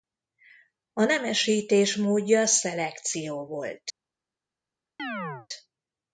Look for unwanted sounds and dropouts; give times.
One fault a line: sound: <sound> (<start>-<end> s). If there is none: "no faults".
sound: chirp (5.0-5.5 s)